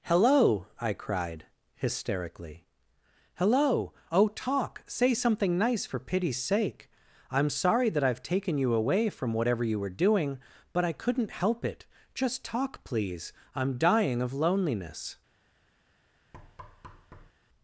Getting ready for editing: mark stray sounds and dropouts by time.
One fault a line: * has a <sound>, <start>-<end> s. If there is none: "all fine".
* has a thud, 16.3-17.3 s